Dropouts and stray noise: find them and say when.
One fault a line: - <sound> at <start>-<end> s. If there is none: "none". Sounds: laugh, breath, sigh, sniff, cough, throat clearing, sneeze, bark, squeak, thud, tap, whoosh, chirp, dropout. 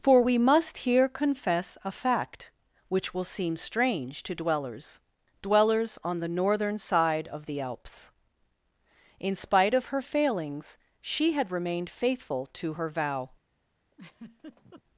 - laugh at 13.9-14.8 s